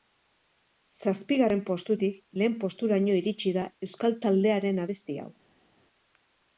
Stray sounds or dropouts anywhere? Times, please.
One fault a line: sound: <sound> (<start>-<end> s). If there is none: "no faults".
no faults